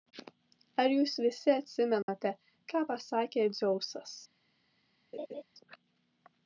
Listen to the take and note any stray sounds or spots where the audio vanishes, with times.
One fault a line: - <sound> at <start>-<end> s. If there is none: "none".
- dropout at 2.0-2.1 s
- laugh at 5.1-5.4 s